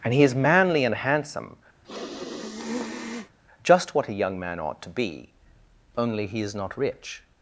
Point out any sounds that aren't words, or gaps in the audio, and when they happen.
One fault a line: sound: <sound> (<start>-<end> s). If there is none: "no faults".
sound: sniff (1.8-3.4 s)